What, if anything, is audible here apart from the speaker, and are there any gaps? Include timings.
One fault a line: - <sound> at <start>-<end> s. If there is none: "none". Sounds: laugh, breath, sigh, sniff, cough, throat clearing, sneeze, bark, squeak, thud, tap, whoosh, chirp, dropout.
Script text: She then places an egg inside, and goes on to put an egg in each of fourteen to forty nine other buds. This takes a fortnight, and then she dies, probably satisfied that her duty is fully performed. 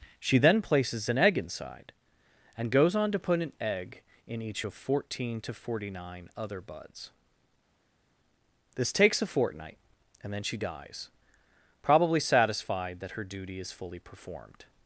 none